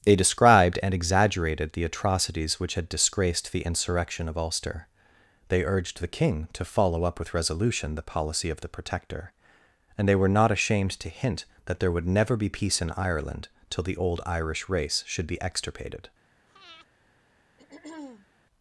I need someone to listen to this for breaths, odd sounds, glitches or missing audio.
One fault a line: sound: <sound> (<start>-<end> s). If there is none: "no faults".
sound: breath (16.5-16.9 s)
sound: throat clearing (17.6-18.3 s)